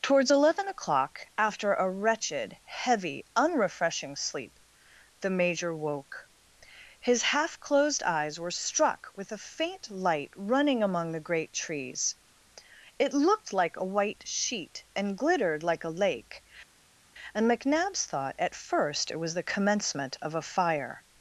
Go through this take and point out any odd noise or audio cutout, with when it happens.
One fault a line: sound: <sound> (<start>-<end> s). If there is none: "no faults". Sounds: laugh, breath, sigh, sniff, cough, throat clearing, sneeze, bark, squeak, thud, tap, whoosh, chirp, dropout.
no faults